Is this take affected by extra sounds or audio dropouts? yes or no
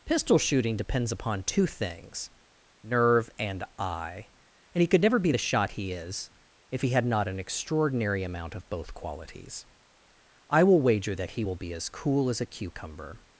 no